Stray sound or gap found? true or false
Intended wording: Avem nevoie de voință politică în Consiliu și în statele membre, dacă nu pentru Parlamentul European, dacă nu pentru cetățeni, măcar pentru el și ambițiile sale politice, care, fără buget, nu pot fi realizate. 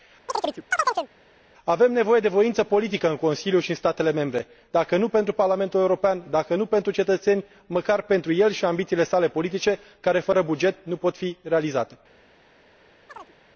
true